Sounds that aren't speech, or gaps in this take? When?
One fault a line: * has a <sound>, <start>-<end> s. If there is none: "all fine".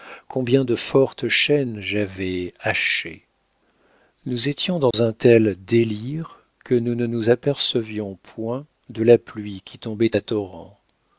* has a dropout, 4.9-4.9 s